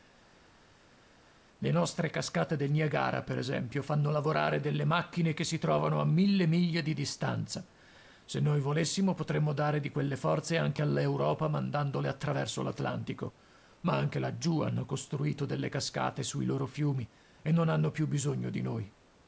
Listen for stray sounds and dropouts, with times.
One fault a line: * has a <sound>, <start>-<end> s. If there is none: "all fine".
all fine